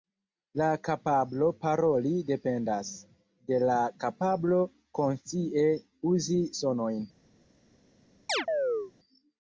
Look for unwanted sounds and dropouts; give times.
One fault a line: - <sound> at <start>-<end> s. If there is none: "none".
- chirp at 8.3-8.9 s